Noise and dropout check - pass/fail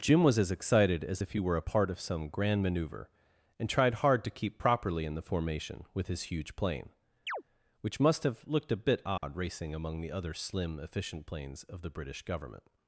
fail